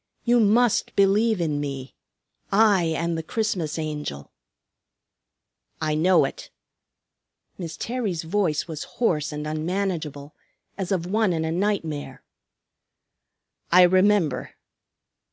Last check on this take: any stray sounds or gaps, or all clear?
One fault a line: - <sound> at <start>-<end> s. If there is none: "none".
none